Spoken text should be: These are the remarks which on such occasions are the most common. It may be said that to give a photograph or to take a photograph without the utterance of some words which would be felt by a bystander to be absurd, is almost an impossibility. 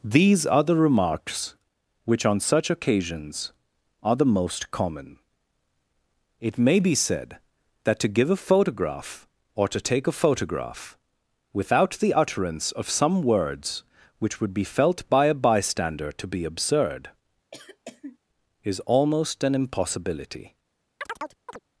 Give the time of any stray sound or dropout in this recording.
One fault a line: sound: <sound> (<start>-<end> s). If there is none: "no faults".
sound: cough (17.5-18.2 s)
sound: chirp (21.0-21.6 s)